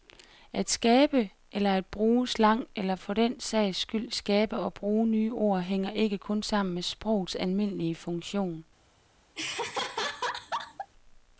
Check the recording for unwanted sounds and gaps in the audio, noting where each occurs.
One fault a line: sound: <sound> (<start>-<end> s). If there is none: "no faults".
sound: laugh (9.4-10.9 s)